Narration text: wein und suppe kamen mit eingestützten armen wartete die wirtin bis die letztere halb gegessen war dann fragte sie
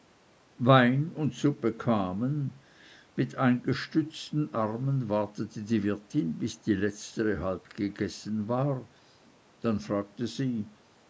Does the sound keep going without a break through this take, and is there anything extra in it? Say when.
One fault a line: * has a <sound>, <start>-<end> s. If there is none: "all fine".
all fine